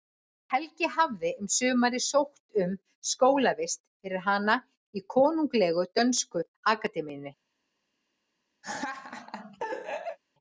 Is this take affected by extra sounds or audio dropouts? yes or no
yes